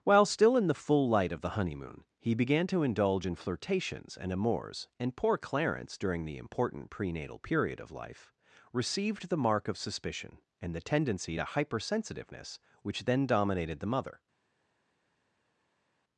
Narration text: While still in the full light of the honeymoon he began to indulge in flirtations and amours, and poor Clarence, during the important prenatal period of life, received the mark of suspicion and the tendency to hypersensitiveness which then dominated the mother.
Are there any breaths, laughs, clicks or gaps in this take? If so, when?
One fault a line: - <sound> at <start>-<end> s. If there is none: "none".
none